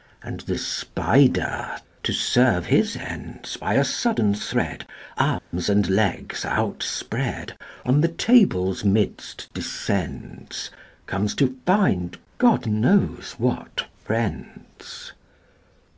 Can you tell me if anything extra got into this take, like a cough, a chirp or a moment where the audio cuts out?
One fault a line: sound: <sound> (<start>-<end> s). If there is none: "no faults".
sound: dropout (5.4-5.5 s)